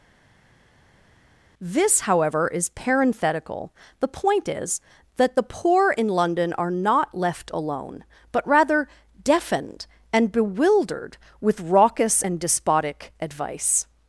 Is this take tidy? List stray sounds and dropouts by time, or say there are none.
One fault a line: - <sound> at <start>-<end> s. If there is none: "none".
none